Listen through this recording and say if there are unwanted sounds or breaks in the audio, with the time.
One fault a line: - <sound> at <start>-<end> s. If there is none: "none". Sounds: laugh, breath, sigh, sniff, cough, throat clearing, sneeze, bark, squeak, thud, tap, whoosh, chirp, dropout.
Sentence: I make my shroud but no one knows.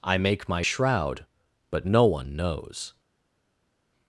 none